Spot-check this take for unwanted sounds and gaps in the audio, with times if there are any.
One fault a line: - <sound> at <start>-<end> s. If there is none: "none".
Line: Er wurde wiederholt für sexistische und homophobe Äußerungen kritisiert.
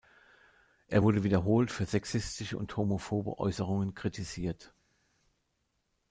none